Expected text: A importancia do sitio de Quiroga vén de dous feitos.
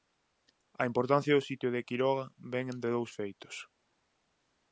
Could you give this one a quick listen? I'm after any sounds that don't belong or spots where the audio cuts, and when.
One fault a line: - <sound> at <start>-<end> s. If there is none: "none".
none